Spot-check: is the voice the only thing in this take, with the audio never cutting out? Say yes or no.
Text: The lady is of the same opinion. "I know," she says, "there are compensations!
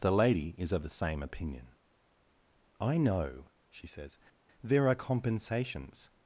yes